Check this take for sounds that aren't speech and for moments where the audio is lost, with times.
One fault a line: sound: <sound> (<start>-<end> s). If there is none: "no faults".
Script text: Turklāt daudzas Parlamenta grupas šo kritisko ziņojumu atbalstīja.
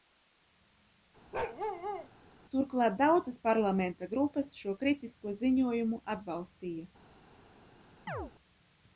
sound: bark (1.3-2.1 s)
sound: chirp (8.1-8.3 s)